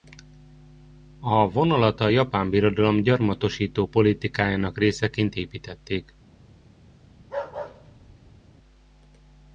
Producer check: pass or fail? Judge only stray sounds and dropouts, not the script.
fail